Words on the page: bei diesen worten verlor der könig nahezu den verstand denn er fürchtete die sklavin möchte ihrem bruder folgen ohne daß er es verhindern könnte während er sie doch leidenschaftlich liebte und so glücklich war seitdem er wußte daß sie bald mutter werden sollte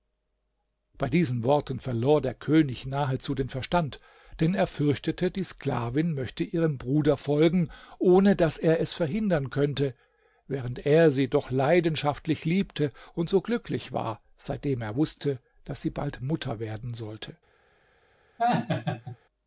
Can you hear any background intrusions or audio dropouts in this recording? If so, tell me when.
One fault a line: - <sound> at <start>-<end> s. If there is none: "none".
- laugh at 18.4-19.2 s